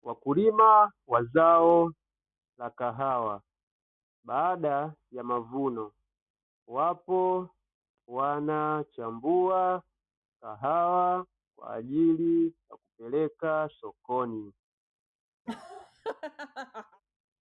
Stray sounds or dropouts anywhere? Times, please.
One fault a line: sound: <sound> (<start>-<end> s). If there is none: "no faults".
sound: laugh (15.5-17.0 s)